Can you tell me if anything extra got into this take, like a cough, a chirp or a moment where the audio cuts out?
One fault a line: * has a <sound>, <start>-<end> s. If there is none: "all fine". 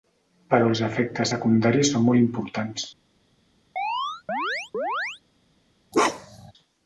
* has a chirp, 3.8-5.2 s
* has a bark, 5.9-6.5 s